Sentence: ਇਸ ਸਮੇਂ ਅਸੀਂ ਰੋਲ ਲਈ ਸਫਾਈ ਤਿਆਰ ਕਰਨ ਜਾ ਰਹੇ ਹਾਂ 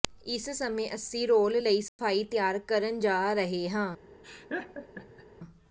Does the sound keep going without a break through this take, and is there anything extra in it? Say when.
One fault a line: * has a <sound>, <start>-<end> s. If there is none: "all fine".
* has a dropout, 1.9-2.0 s
* has a laugh, 4.2-5.3 s